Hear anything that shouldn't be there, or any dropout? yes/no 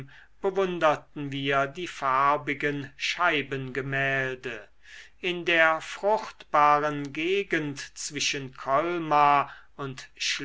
no